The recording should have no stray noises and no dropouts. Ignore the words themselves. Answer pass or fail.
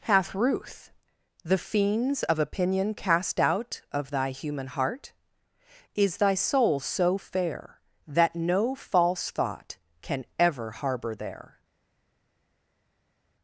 pass